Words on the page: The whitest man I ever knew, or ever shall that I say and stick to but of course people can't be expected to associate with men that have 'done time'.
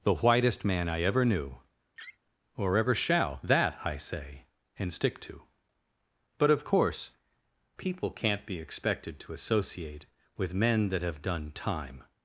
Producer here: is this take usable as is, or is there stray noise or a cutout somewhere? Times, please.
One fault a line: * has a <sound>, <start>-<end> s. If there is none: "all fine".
* has a laugh, 2.0-2.2 s